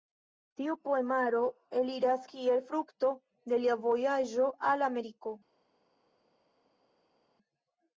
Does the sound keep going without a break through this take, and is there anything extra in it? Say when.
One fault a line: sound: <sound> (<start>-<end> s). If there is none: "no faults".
no faults